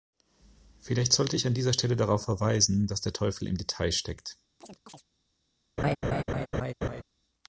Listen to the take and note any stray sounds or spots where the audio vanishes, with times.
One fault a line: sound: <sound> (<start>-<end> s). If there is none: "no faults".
sound: chirp (4.6-5.0 s)
sound: laugh (5.8-7.0 s)